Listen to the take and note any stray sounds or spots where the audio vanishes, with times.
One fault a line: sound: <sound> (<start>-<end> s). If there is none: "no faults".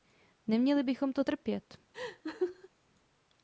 sound: laugh (1.9-2.7 s)